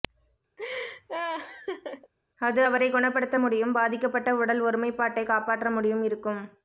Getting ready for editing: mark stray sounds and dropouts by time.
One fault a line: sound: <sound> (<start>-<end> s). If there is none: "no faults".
sound: laugh (0.6-2.1 s)